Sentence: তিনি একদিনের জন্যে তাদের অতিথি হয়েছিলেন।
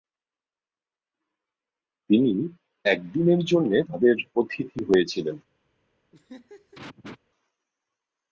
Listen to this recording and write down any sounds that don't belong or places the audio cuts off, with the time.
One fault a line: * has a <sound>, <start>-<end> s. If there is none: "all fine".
* has a laugh, 6.1-7.2 s